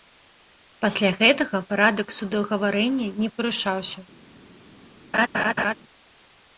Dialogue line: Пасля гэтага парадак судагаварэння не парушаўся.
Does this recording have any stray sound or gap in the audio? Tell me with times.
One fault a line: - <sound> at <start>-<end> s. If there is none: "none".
- laugh at 5.1-5.7 s